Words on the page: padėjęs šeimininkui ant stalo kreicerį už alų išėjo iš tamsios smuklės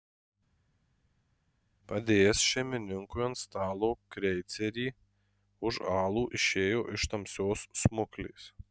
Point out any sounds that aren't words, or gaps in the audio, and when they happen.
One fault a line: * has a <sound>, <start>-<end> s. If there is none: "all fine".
all fine